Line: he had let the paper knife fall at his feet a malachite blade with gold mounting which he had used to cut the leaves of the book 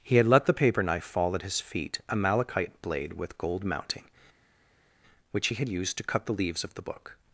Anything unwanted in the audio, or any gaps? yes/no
no